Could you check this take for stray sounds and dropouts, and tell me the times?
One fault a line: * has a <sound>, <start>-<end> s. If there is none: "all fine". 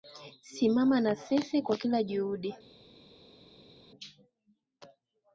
all fine